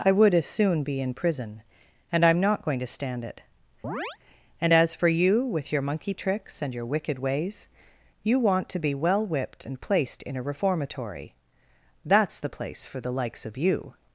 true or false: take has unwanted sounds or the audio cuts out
true